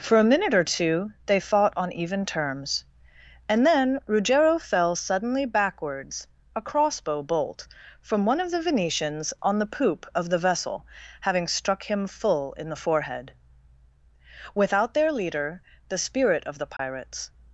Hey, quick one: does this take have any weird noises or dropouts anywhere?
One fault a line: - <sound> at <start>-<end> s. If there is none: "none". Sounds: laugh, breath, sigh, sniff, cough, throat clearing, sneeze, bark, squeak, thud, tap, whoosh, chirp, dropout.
- dropout at 16.8-16.8 s